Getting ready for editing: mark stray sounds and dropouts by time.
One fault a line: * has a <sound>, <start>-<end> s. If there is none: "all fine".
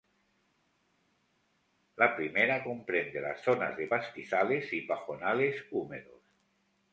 all fine